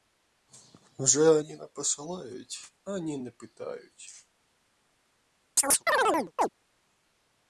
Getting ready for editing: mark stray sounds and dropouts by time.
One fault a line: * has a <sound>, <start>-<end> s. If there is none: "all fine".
* has a chirp, 5.6-6.5 s